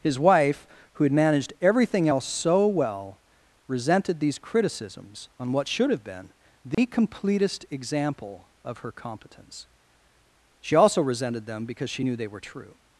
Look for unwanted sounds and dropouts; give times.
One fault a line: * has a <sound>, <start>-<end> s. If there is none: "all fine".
* has a dropout, 6.7-6.8 s